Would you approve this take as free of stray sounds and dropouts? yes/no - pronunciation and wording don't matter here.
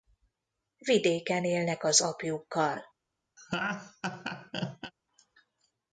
no